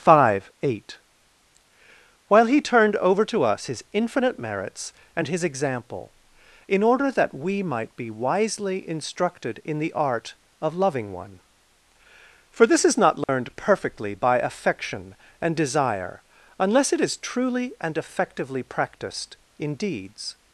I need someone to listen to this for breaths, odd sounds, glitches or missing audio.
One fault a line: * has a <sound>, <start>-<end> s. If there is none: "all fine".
* has a dropout, 13.2-13.3 s